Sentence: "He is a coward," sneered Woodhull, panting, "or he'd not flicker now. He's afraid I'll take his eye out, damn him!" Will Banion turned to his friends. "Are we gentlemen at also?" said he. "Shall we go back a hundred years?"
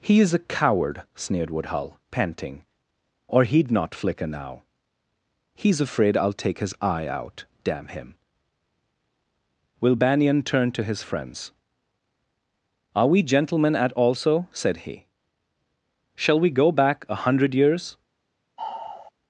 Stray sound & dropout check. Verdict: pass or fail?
fail